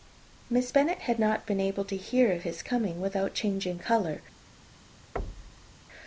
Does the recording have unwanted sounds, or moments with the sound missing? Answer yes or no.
yes